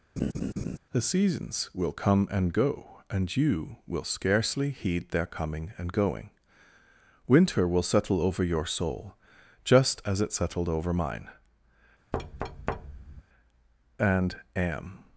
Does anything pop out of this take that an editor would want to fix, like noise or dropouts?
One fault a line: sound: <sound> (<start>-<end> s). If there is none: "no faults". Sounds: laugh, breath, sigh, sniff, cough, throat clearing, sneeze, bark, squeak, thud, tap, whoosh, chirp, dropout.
sound: laugh (0.2-0.8 s)
sound: thud (12.1-13.2 s)